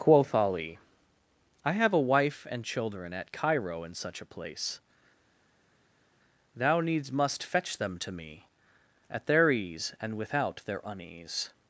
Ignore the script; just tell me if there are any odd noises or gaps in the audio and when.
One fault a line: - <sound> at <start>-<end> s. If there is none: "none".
none